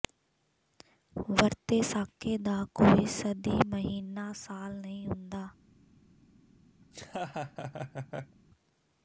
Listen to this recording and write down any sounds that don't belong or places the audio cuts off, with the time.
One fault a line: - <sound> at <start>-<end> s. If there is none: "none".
- laugh at 6.8-8.4 s